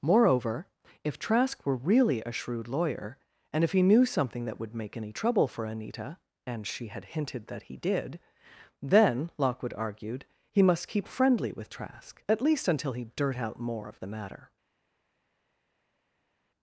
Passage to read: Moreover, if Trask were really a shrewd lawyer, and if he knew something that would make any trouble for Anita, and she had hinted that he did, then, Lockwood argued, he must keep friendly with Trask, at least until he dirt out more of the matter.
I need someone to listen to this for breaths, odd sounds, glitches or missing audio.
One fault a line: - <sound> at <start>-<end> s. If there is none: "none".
none